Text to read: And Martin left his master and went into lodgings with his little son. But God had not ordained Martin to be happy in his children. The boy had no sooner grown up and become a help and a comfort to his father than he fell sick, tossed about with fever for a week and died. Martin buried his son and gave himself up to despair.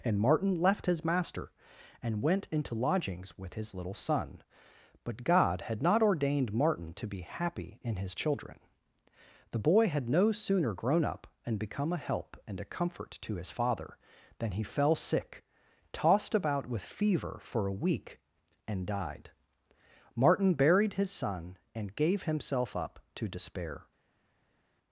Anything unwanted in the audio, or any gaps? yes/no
no